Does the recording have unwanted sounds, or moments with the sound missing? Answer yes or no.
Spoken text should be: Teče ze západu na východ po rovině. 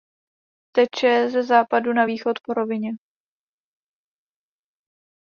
no